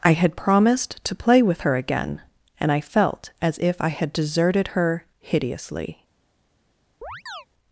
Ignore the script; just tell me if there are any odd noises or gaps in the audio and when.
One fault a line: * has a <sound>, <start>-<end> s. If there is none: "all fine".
* has a chirp, 7.0-7.5 s